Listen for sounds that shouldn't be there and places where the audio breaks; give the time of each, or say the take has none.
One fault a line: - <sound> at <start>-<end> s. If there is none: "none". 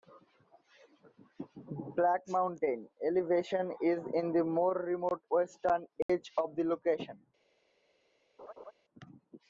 - dropout at 6.0-6.1 s
- laugh at 8.4-8.7 s